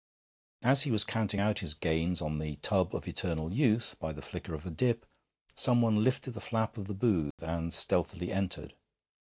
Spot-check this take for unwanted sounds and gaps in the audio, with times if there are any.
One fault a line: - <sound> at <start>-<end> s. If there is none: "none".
- dropout at 7.3-7.4 s